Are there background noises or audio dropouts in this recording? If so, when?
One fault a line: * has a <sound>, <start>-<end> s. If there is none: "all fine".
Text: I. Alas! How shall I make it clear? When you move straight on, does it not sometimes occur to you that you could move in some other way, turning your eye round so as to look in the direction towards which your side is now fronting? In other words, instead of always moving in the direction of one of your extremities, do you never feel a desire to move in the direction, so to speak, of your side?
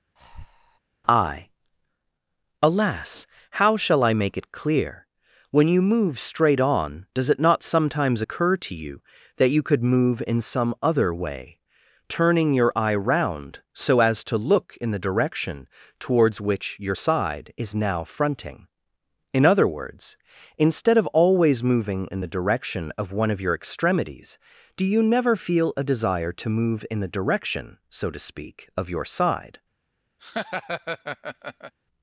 * has a breath, 0.2-0.8 s
* has a laugh, 30.2-31.7 s